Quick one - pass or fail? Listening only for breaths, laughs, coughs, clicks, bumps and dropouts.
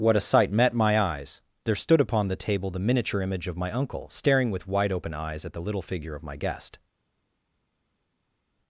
pass